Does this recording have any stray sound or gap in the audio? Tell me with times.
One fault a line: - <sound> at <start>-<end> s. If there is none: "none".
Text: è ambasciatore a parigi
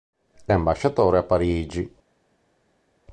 none